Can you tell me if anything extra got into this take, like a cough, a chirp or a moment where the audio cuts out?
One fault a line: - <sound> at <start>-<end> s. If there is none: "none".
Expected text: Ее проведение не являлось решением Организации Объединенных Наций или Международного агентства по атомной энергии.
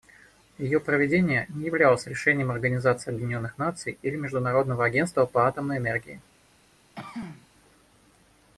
- throat clearing at 7.0-7.5 s